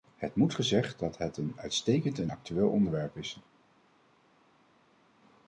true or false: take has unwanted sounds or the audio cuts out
false